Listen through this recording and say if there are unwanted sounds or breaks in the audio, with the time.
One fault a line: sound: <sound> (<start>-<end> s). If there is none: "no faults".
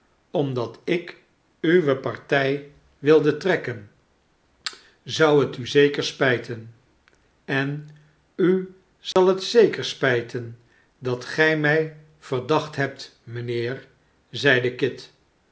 sound: dropout (9.1-9.2 s)